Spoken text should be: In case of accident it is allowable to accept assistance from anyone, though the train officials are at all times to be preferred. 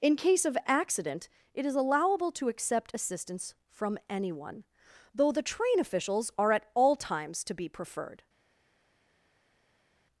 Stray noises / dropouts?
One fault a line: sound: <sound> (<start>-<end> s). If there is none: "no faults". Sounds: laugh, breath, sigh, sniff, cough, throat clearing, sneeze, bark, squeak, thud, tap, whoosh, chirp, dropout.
no faults